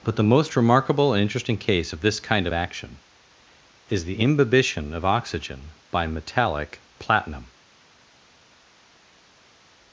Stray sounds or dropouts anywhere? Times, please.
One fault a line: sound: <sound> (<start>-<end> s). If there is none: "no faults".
no faults